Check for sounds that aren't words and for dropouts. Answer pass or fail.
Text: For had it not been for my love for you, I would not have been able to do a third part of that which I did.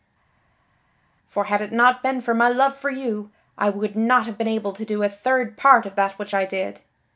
pass